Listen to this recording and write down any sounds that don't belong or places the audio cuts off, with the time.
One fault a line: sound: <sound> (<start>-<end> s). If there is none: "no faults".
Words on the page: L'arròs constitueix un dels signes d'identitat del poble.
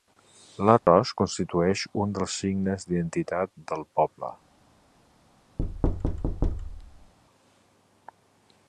sound: dropout (0.8-0.9 s)
sound: thud (5.6-7.1 s)